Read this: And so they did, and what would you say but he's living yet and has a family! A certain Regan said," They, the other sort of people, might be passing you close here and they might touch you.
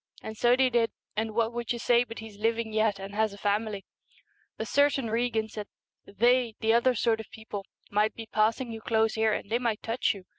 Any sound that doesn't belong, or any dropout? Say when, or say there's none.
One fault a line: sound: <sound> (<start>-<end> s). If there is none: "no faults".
no faults